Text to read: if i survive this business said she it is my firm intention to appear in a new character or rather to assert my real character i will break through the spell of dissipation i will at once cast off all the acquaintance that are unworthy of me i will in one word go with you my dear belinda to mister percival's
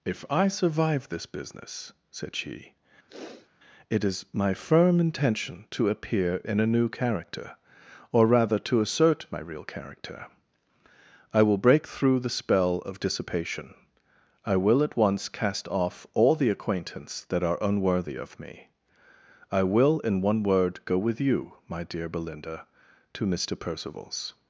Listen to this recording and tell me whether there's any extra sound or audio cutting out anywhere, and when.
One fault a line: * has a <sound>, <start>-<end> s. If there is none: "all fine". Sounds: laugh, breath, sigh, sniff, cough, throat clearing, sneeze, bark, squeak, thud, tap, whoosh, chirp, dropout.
* has a sniff, 3.1-3.5 s